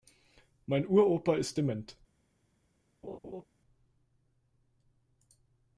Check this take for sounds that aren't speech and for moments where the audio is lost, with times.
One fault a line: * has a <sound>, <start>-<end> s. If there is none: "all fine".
* has a laugh, 3.0-3.5 s